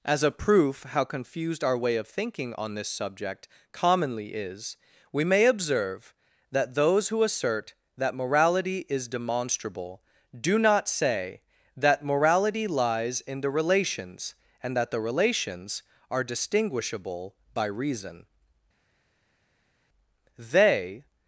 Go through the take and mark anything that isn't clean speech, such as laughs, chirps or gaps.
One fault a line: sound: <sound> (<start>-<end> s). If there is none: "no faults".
no faults